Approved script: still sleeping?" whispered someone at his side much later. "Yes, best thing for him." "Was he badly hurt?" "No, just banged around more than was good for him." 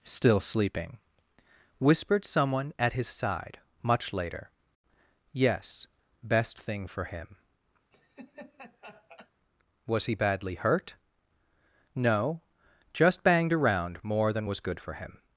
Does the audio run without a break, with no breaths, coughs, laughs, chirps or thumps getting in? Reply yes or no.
no